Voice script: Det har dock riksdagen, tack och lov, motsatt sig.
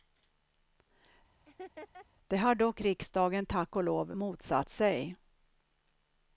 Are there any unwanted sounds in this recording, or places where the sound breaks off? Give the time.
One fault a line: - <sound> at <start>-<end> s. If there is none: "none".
- laugh at 1.5-2.1 s